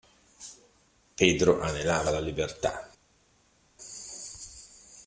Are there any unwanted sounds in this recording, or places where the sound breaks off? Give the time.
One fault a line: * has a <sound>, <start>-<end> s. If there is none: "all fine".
all fine